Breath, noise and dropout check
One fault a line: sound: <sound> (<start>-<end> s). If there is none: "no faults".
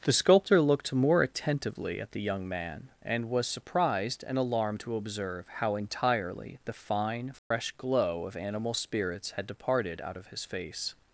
sound: dropout (7.4-7.5 s)